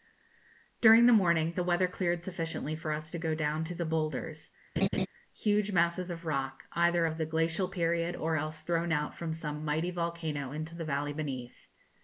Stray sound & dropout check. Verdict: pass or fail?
fail